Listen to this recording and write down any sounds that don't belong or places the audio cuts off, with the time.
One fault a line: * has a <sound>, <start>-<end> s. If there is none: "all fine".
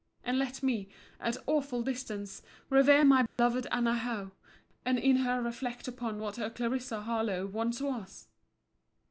* has a dropout, 3.3-3.4 s